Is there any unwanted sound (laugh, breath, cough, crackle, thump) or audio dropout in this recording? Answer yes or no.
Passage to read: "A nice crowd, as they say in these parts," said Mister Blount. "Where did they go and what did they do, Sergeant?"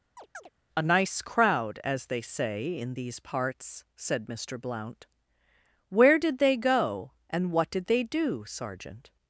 yes